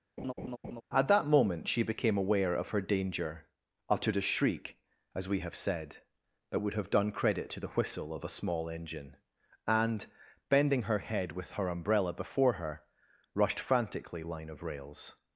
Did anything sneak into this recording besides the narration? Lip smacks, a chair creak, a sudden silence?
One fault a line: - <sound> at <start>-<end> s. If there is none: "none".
- laugh at 0.2-0.8 s